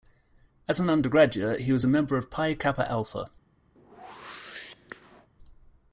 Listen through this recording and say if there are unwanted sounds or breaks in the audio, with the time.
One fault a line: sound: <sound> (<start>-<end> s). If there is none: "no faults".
sound: whoosh (3.8-5.3 s)